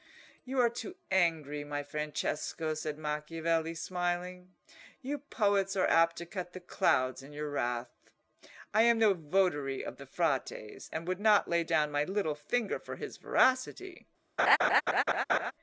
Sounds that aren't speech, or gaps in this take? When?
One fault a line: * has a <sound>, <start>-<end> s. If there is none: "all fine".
* has a laugh, 14.4-15.5 s